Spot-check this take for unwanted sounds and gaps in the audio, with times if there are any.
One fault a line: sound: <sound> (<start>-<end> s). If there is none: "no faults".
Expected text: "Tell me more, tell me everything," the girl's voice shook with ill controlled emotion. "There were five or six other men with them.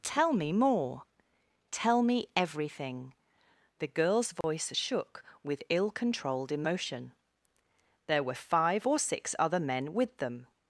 sound: dropout (4.4-4.4 s)